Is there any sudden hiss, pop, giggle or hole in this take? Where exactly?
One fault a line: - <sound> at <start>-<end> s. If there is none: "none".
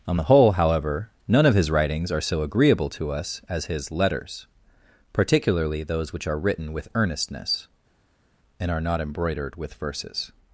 none